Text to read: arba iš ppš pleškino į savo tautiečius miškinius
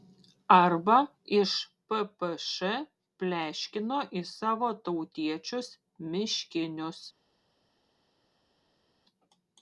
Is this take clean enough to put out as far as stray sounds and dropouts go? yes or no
yes